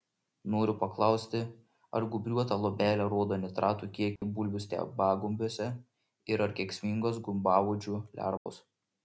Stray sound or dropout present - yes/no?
yes